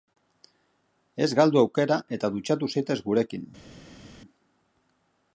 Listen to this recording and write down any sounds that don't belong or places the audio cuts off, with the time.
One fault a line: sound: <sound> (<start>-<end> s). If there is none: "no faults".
no faults